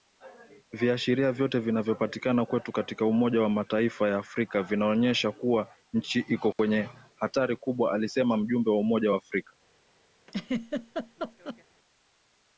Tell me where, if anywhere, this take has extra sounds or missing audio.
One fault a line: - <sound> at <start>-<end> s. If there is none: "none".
- dropout at 6.5-6.6 s
- laugh at 10.3-11.6 s